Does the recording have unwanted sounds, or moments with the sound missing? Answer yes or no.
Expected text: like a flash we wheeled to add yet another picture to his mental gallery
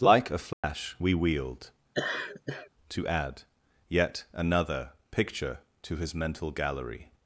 yes